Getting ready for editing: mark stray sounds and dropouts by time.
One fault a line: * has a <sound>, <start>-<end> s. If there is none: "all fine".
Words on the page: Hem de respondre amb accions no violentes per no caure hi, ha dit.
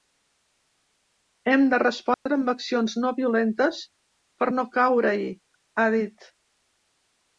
* has a dropout, 2.1-2.3 s